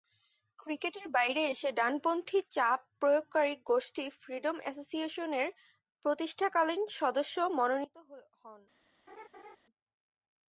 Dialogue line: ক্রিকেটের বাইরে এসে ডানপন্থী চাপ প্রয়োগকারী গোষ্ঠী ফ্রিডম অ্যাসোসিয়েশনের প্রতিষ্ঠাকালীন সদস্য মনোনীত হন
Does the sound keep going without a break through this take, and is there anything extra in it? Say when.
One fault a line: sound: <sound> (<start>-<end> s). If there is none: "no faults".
sound: laugh (9.1-9.6 s)